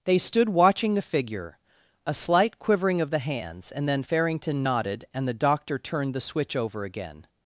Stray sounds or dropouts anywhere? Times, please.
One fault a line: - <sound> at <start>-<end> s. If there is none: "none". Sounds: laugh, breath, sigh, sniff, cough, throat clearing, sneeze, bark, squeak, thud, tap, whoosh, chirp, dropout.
none